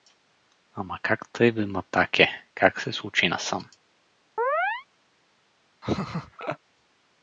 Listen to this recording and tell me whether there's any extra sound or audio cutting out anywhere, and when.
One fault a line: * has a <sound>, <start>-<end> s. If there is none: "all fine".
* has a chirp, 4.4-4.9 s
* has a laugh, 5.8-6.6 s